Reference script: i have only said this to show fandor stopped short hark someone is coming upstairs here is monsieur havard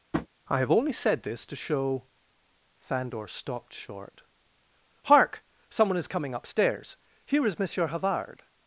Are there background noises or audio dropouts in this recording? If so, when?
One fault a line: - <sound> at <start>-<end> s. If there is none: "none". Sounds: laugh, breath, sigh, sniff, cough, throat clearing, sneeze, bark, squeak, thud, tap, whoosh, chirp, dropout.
- tap at 0.1-0.3 s